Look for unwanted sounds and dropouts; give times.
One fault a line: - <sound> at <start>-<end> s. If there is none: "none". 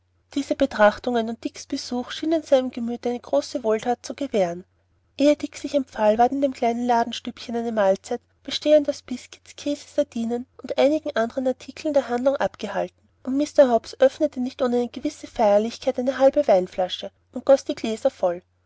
none